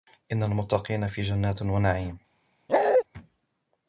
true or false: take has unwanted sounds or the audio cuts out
true